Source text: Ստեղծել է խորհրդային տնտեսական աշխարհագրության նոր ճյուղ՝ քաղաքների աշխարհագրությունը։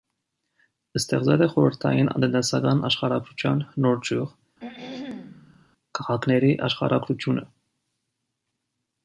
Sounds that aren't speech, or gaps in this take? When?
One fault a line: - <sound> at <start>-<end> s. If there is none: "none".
- throat clearing at 4.6-5.7 s